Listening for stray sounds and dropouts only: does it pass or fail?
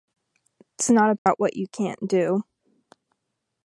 fail